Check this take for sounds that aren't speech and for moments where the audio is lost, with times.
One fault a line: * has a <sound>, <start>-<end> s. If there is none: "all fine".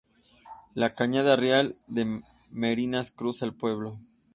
all fine